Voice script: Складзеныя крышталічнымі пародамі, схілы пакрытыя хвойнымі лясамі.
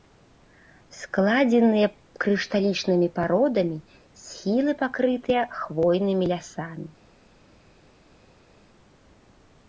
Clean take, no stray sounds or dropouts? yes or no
yes